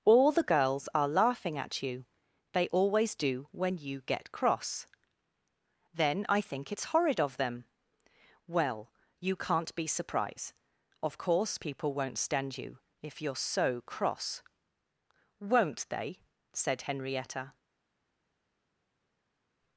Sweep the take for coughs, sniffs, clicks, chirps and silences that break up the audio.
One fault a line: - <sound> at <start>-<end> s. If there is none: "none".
none